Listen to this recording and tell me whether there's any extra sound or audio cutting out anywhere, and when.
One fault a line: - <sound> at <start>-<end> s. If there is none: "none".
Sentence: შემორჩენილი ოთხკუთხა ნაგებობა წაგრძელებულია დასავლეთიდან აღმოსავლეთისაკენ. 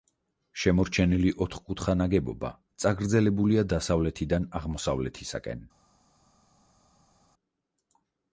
none